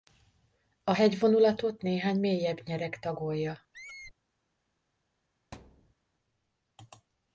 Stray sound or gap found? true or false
true